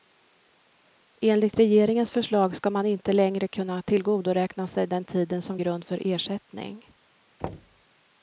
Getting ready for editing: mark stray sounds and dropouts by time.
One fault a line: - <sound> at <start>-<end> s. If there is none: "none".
- thud at 7.4-7.8 s